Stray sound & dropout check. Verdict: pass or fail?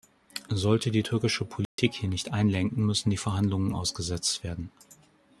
fail